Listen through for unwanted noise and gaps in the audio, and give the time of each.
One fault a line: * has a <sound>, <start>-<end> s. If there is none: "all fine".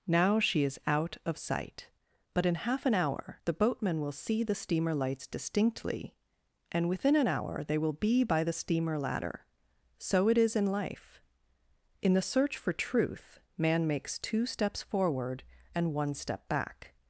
all fine